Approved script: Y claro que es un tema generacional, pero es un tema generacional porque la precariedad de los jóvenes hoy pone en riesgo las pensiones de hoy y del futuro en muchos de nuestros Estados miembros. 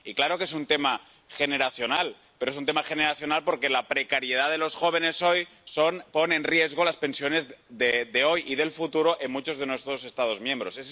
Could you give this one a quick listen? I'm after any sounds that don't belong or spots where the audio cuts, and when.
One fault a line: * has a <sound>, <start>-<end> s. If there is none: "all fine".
all fine